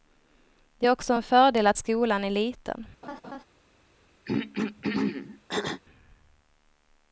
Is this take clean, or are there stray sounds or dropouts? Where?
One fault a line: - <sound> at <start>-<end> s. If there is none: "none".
- laugh at 3.0-3.4 s
- throat clearing at 4.3-5.8 s